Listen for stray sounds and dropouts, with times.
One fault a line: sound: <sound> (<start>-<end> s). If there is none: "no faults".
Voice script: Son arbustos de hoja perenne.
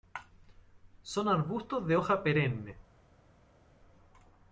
no faults